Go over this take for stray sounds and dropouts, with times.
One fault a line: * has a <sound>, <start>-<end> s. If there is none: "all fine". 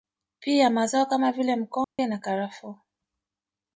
* has a dropout, 1.8-2.0 s